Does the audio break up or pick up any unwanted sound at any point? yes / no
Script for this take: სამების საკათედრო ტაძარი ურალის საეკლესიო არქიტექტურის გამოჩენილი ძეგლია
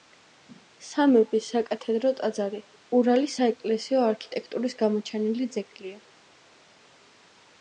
no